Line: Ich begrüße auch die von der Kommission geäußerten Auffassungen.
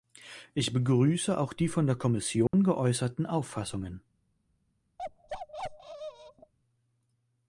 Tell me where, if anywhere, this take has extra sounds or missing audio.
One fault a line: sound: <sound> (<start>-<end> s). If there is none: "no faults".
sound: dropout (2.5-2.5 s)
sound: bark (5.0-6.5 s)